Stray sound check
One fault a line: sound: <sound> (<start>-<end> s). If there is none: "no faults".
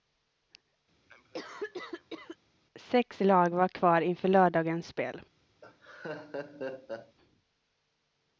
sound: cough (1.1-2.4 s)
sound: laugh (5.6-7.2 s)